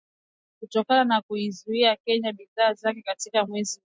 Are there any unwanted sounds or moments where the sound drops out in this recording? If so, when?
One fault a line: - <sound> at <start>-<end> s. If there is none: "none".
none